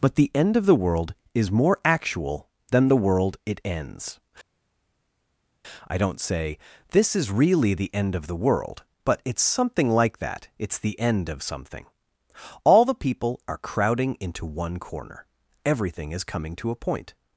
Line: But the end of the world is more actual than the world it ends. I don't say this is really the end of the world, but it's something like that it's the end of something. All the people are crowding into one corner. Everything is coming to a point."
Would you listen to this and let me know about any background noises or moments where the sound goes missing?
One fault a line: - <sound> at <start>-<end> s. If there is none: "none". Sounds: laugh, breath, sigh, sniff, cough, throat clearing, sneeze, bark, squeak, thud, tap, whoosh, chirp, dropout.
none